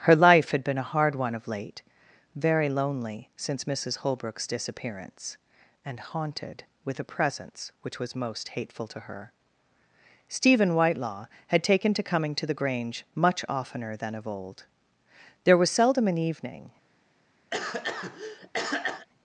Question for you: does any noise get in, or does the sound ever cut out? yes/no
yes